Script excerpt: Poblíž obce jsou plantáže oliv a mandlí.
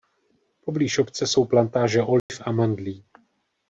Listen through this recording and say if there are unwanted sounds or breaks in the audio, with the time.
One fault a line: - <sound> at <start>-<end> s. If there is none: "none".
- dropout at 2.2-2.3 s